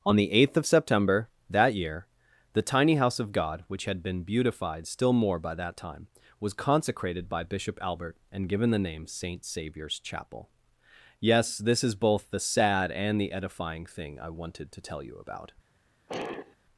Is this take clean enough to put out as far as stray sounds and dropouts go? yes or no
no